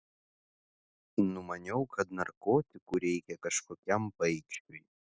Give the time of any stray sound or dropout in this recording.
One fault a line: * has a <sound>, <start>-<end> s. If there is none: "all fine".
all fine